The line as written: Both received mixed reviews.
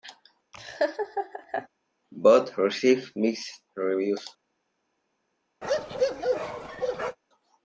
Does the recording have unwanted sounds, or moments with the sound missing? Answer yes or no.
yes